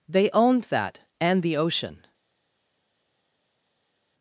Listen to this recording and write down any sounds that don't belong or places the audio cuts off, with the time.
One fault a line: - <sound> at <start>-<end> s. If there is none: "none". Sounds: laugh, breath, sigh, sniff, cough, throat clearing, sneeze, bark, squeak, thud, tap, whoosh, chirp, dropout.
none